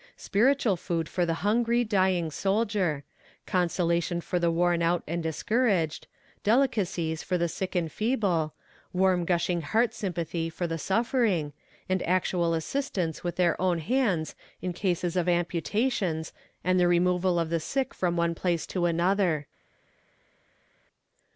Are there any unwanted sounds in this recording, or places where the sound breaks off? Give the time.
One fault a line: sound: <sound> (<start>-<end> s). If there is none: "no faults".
no faults